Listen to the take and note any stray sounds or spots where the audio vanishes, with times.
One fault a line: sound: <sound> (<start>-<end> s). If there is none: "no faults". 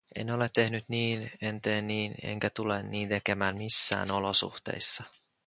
no faults